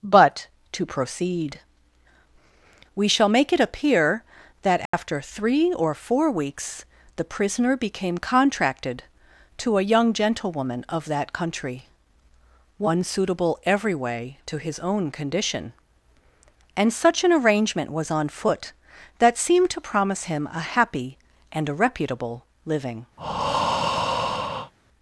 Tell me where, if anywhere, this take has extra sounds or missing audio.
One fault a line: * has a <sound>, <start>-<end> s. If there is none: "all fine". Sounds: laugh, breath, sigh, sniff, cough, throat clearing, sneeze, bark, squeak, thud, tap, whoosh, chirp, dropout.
* has a dropout, 4.9-4.9 s
* has a breath, 23.2-24.7 s